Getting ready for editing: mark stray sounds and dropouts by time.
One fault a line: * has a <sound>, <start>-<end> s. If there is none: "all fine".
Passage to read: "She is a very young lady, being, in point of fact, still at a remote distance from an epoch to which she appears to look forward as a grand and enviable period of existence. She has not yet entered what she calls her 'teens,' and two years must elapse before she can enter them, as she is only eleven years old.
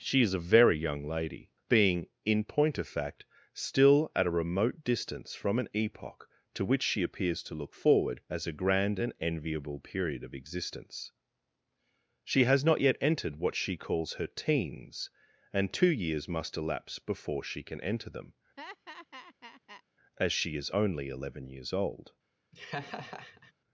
* has a laugh, 18.6-19.8 s
* has a laugh, 22.5-23.5 s